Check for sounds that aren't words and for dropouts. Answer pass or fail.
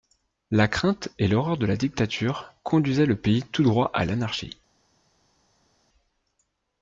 pass